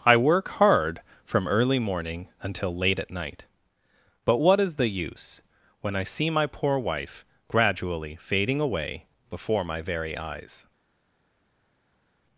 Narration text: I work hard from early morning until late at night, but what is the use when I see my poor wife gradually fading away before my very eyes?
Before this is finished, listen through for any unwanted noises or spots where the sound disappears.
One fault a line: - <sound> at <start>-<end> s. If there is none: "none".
none